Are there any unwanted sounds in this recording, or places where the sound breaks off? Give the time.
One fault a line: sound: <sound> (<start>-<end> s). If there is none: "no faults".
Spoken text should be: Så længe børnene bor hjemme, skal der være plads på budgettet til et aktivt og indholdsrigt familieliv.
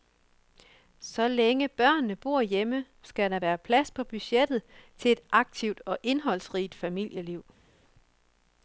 no faults